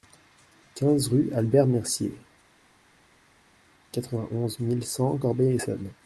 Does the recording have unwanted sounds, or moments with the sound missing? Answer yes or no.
no